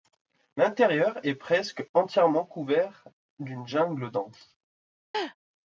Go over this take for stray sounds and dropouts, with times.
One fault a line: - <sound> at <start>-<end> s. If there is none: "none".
- laugh at 5.1-5.4 s